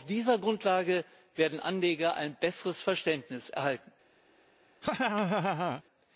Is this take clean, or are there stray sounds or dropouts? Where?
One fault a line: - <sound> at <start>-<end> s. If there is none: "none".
- laugh at 4.8-5.8 s